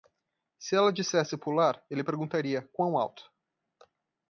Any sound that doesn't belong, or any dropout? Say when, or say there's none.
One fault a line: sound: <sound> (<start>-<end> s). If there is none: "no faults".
no faults